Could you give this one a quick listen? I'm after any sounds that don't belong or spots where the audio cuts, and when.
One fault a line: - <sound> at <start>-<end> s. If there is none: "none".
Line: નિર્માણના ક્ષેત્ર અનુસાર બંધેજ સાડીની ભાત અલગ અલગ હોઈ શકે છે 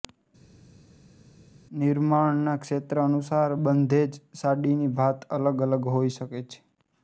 none